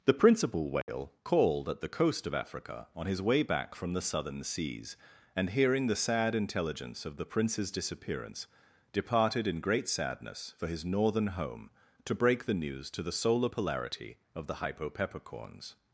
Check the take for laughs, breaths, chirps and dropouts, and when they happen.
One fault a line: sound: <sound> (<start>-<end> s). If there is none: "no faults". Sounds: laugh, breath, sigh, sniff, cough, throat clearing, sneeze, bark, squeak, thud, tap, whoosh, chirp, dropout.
sound: dropout (0.8-0.9 s)